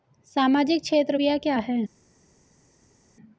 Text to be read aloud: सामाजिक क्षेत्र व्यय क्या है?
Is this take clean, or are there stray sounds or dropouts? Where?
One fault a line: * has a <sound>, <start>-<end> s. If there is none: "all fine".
all fine